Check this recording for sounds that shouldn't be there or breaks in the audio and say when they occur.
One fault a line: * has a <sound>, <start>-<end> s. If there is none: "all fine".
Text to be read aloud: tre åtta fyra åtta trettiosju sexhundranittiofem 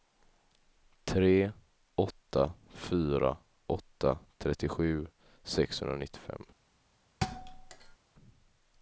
* has a thud, 7.2-8.0 s